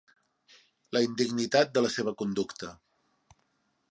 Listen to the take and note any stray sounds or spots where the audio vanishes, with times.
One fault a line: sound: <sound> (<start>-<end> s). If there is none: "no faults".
no faults